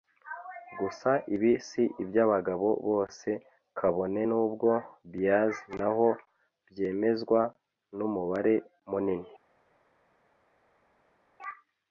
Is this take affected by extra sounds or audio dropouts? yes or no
no